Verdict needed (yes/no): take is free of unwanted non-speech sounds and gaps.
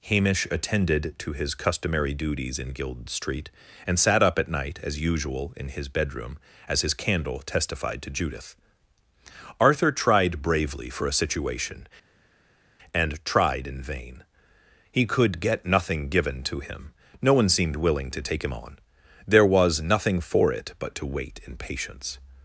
yes